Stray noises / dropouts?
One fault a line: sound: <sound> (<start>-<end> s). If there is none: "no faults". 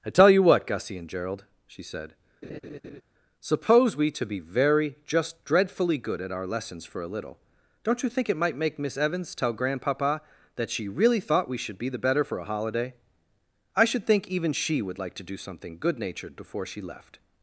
sound: laugh (2.4-3.0 s)